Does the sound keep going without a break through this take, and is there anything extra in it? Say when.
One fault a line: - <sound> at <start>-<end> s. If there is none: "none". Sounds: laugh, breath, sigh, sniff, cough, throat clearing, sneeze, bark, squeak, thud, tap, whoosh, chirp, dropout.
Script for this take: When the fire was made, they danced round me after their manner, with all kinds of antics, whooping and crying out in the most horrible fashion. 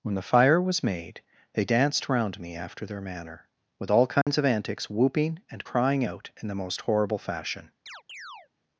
- dropout at 4.2-4.3 s
- chirp at 7.9-8.5 s